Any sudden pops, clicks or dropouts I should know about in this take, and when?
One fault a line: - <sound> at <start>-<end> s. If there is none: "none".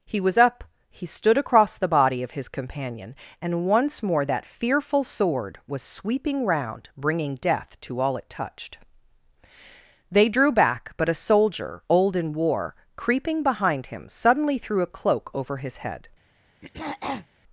- throat clearing at 16.6-17.3 s